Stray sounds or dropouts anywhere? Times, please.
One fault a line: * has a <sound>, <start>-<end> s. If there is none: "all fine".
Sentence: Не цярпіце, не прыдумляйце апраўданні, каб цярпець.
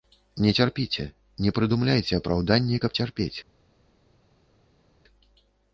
all fine